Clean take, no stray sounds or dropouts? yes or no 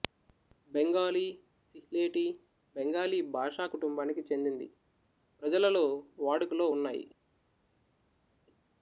yes